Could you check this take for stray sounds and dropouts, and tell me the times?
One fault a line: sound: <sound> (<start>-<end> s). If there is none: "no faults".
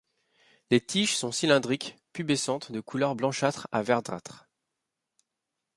no faults